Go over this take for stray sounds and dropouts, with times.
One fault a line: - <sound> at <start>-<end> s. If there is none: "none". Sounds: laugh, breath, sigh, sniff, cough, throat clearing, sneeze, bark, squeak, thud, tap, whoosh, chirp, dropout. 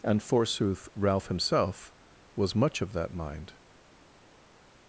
none